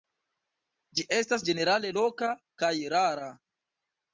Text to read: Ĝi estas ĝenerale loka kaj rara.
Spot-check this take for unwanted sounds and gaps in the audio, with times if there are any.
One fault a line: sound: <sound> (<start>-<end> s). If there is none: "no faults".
no faults